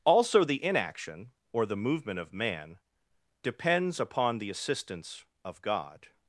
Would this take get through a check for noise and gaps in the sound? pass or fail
pass